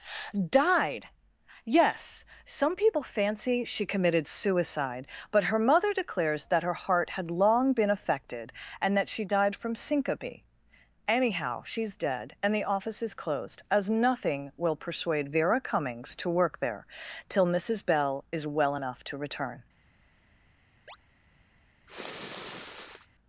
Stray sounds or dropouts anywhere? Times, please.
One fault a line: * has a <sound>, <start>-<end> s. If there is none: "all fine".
* has a chirp, 20.9-21.0 s
* has a sniff, 21.9-23.1 s